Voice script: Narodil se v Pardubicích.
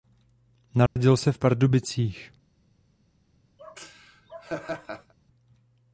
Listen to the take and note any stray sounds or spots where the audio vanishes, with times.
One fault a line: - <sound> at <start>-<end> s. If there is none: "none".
- dropout at 0.9-1.0 s
- laugh at 3.6-5.1 s